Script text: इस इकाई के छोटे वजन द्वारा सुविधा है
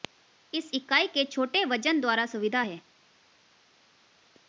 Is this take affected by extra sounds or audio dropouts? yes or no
no